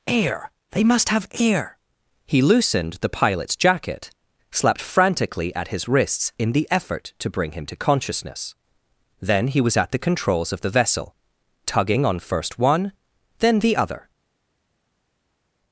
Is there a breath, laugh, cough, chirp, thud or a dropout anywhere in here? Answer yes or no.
no